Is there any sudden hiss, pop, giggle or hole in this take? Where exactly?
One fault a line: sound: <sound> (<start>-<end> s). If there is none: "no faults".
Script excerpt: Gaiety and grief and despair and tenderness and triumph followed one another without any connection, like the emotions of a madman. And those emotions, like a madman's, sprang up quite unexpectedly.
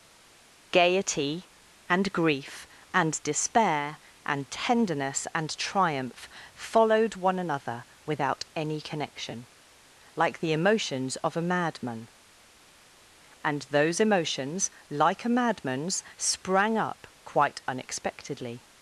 no faults